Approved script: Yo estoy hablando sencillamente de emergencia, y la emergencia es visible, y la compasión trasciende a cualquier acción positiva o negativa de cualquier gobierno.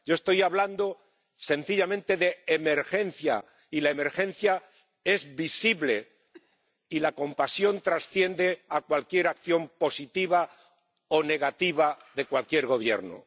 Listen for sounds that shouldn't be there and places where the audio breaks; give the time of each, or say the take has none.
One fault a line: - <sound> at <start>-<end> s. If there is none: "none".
- cough at 6.3-6.6 s